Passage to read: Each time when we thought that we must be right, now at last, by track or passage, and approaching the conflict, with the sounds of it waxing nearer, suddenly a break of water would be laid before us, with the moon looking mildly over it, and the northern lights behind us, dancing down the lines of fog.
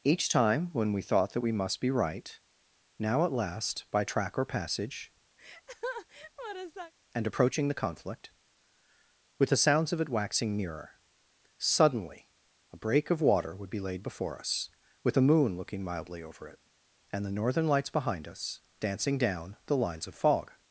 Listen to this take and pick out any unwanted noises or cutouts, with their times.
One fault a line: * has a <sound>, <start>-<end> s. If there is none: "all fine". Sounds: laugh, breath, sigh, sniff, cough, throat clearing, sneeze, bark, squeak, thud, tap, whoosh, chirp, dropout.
* has a laugh, 5.4-6.9 s